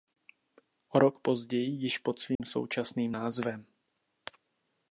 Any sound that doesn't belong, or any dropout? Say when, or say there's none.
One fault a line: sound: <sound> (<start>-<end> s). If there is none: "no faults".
sound: dropout (2.3-2.4 s)